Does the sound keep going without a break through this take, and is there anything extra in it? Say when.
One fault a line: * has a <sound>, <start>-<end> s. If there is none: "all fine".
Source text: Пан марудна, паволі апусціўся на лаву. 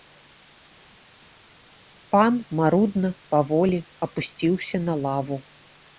all fine